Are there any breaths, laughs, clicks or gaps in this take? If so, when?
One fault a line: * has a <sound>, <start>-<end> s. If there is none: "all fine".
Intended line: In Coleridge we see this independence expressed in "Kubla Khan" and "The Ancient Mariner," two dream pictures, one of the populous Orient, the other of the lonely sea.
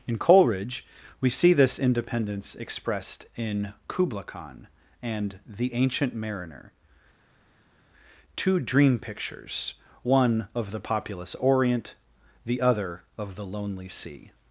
all fine